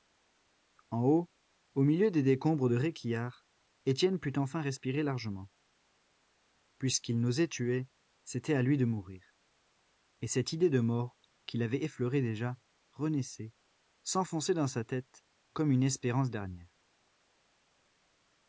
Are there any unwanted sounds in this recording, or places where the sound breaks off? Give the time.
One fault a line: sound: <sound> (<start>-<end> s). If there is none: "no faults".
no faults